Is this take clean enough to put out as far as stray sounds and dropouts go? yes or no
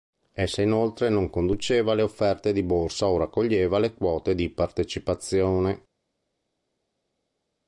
yes